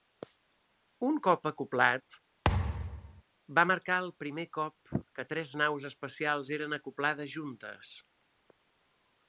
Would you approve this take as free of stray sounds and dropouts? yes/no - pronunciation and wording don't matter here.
no